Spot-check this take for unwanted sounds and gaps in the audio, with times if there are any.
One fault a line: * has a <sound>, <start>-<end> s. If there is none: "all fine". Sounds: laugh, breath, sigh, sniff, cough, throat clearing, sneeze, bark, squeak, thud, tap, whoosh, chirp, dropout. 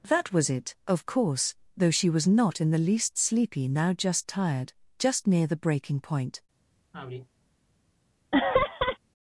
* has a sigh, 6.9-7.3 s
* has a laugh, 8.3-9.0 s